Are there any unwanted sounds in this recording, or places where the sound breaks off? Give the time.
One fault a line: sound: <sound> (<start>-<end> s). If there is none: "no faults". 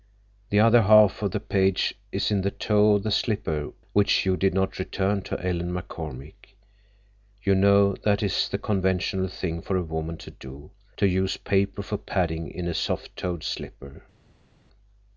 no faults